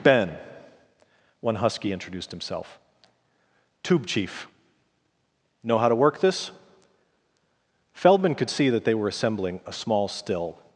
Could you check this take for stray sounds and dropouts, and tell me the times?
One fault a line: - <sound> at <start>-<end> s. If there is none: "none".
none